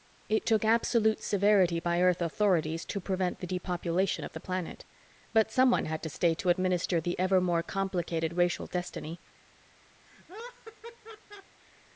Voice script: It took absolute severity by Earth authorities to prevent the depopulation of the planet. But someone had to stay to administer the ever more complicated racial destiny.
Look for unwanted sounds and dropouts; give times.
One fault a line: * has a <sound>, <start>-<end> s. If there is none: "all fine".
* has a laugh, 10.0-11.6 s